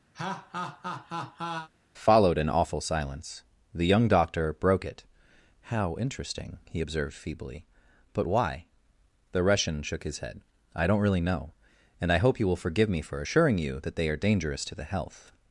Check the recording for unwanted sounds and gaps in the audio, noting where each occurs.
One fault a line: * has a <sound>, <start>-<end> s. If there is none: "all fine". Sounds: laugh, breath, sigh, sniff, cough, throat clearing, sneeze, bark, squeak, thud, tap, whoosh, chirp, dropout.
* has a laugh, 0.1-1.7 s